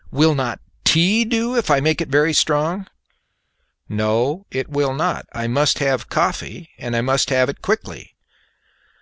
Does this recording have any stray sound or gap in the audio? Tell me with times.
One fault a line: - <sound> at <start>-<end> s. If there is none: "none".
none